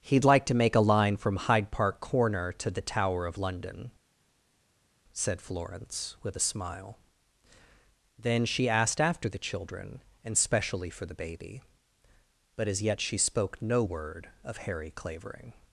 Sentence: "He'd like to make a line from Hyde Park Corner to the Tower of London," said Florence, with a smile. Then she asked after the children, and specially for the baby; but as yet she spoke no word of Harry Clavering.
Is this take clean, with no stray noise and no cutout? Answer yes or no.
yes